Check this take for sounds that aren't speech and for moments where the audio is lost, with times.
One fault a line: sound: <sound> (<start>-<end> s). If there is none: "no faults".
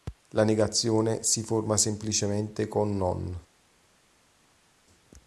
no faults